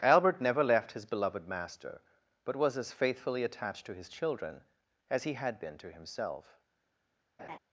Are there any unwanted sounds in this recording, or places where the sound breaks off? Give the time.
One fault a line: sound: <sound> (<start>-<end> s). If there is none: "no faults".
sound: laugh (7.4-7.6 s)